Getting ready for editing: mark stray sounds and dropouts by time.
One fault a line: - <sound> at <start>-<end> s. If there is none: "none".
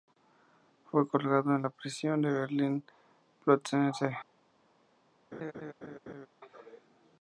- laugh at 5.3-6.3 s